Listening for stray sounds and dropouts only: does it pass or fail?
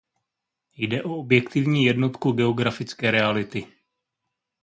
pass